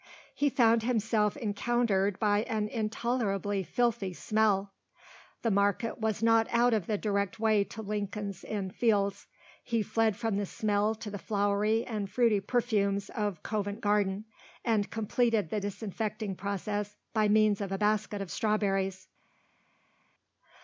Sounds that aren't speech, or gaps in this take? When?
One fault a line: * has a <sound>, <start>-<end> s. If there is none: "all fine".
all fine